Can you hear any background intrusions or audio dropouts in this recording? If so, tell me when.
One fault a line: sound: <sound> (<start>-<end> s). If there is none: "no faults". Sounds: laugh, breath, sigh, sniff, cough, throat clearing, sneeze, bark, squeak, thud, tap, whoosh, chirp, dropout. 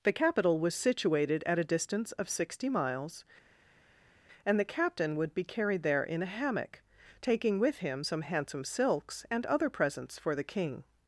no faults